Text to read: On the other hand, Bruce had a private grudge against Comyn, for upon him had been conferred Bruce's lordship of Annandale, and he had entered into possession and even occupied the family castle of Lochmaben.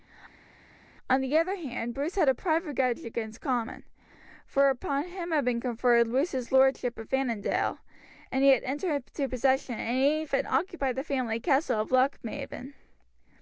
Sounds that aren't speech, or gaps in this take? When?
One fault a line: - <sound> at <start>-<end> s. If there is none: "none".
none